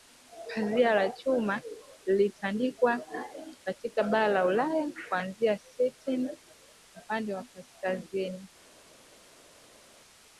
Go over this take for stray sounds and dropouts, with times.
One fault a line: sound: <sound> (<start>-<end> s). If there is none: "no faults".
no faults